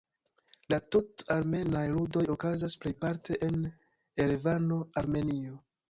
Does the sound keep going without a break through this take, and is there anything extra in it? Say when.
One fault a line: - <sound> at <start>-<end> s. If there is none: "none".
none